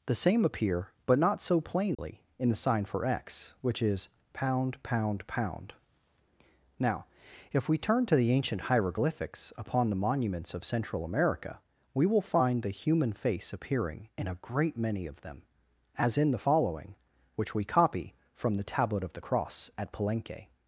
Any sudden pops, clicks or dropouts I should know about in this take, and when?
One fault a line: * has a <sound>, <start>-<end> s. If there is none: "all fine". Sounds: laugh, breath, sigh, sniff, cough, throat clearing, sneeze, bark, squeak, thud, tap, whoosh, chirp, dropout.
* has a dropout, 1.9-2.0 s